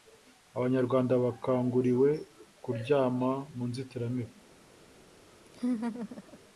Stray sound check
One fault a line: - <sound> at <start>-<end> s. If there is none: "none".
- laugh at 5.5-6.4 s